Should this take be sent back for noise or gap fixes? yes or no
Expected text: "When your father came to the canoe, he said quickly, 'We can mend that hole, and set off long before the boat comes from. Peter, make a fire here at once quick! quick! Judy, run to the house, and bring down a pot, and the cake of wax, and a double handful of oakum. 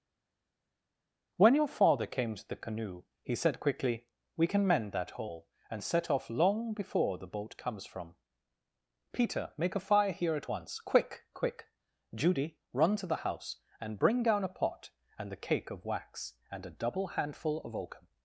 no